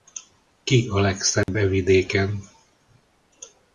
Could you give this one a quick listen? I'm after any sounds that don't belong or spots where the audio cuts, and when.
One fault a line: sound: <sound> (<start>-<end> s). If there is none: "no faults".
sound: dropout (1.4-1.5 s)